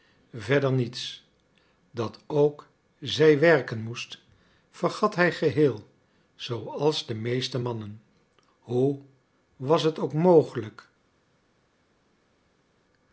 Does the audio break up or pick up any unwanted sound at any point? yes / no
no